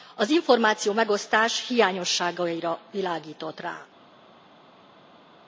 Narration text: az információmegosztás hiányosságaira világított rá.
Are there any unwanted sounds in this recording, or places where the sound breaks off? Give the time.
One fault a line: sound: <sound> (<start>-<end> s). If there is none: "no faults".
no faults